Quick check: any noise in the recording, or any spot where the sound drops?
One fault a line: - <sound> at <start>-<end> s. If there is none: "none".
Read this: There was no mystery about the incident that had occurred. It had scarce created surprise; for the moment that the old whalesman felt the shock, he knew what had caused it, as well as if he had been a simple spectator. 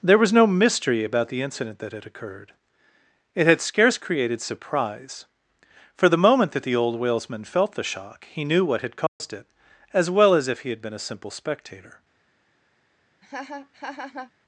- dropout at 9.1-9.2 s
- laugh at 13.2-14.3 s